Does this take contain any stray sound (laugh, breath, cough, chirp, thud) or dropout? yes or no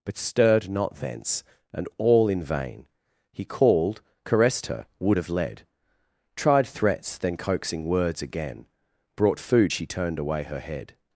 no